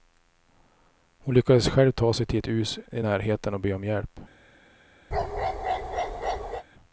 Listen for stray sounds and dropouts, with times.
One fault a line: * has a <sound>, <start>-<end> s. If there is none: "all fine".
* has a bark, 5.1-6.6 s